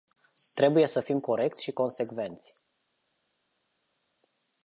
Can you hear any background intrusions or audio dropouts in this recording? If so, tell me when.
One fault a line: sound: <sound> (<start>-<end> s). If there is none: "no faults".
no faults